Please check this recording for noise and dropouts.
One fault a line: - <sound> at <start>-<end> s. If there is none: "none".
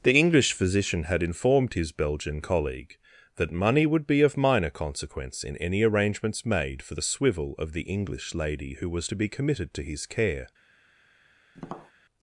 - tap at 11.5-11.9 s